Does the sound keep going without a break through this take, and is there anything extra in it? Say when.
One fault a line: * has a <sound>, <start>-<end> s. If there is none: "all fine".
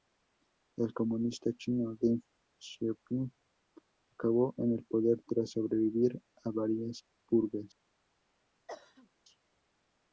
* has a cough, 8.7-9.1 s